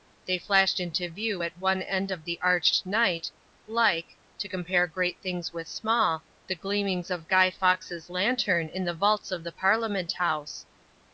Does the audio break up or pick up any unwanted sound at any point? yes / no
no